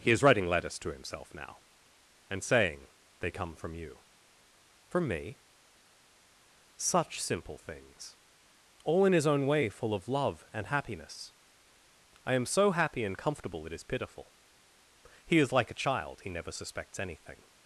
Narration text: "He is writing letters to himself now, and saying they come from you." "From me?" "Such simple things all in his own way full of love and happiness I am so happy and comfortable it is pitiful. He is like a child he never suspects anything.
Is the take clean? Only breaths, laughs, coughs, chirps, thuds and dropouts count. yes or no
yes